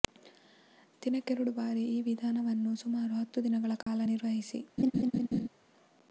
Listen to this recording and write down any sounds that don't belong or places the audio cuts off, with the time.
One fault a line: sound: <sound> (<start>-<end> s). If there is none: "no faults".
sound: dropout (3.8-3.9 s)
sound: laugh (4.8-5.5 s)